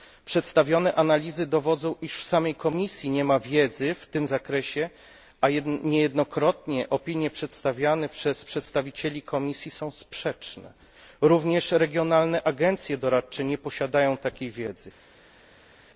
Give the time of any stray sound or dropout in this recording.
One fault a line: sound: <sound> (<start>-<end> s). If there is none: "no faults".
no faults